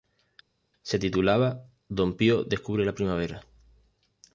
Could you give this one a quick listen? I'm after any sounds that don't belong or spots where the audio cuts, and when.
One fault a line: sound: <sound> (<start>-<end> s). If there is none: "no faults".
no faults